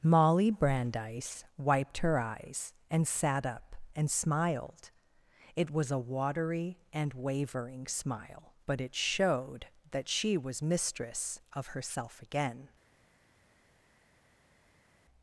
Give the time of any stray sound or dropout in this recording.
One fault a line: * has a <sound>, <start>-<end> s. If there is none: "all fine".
all fine